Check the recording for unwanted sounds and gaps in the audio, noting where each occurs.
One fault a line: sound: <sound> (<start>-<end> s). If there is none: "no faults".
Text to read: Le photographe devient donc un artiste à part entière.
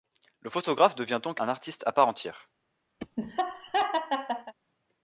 sound: laugh (3.0-4.5 s)